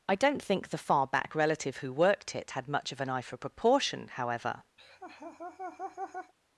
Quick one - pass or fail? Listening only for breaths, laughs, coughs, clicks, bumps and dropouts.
fail